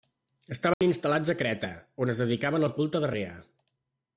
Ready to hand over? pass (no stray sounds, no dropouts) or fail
fail